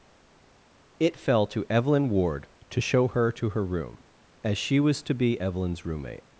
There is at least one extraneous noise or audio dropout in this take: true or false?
false